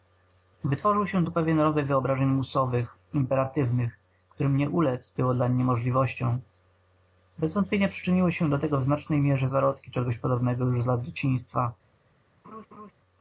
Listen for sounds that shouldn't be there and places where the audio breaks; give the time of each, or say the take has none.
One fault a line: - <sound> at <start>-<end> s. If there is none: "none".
- laugh at 12.4-12.9 s